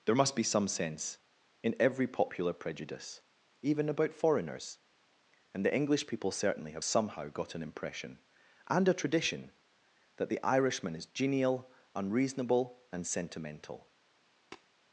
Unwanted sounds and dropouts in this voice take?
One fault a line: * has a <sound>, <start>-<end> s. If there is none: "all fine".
* has a tap, 14.5-14.7 s